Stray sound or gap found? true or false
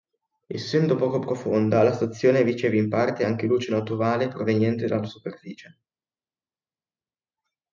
false